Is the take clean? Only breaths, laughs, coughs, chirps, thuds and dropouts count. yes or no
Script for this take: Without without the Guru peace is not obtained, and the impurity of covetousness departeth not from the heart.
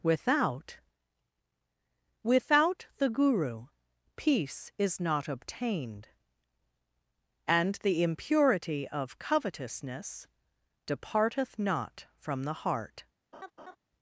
no